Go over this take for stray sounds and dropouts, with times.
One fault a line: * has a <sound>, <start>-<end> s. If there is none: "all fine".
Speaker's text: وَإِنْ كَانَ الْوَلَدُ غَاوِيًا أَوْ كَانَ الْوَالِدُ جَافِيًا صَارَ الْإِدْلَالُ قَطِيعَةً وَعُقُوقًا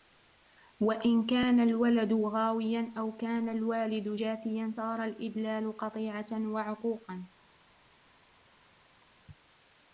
all fine